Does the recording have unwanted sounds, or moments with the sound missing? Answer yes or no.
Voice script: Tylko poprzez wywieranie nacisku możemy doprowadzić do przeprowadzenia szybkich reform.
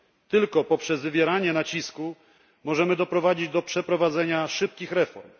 no